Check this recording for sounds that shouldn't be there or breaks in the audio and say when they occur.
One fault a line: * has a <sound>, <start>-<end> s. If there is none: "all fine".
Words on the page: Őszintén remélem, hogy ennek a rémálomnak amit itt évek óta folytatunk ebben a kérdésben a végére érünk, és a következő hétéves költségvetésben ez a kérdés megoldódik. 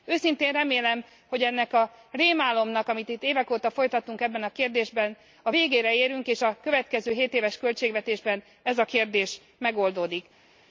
all fine